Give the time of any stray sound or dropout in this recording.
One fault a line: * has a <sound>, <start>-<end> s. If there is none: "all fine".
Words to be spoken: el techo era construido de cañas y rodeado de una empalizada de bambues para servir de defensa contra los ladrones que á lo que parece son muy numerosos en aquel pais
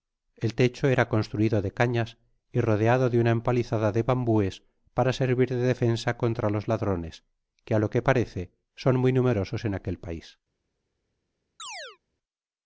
* has a chirp, 11.6-12.0 s